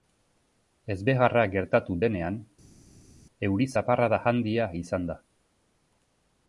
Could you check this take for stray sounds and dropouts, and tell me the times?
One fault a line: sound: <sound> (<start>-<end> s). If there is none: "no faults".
no faults